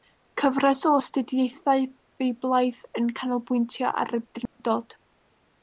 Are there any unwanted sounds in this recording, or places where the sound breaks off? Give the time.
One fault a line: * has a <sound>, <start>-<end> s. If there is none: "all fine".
* has a dropout, 4.5-4.6 s